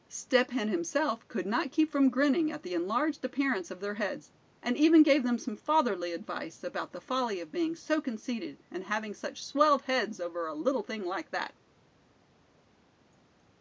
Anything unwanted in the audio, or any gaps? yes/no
no